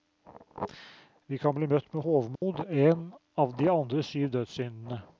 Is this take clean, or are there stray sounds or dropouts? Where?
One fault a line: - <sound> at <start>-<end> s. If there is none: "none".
- dropout at 2.3-2.4 s